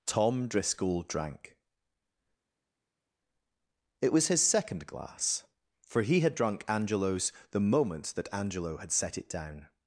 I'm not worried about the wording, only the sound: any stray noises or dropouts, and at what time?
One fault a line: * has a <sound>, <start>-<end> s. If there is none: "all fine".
all fine